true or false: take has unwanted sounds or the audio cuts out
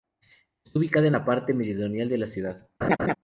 true